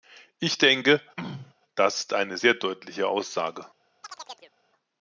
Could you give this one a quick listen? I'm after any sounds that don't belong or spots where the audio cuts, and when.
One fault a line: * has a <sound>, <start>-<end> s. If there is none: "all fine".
* has a throat clearing, 1.2-1.5 s
* has a chirp, 4.0-4.5 s